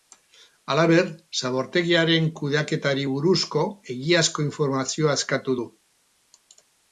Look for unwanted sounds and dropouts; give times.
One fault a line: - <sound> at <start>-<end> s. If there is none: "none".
none